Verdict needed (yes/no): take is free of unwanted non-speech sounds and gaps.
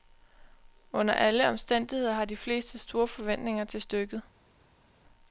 yes